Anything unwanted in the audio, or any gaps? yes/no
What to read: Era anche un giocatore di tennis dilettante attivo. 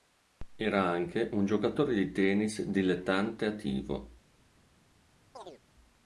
yes